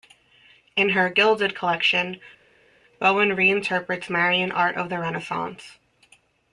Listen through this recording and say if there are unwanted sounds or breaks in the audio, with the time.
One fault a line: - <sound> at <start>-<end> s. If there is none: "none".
none